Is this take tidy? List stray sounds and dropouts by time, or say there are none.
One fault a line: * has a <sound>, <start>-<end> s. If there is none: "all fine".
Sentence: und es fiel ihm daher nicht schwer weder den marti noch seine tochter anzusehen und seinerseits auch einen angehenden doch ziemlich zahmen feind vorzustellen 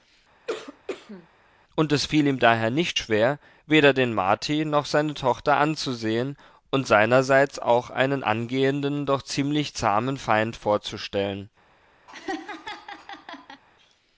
* has a cough, 0.5-1.3 s
* has a laugh, 12.1-13.6 s